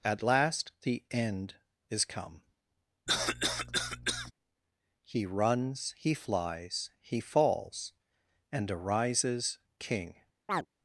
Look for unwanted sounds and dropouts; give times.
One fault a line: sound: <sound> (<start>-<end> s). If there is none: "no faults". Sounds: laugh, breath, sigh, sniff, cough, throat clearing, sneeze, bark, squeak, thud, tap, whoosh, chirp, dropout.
sound: cough (3.1-4.3 s)
sound: chirp (10.5-10.7 s)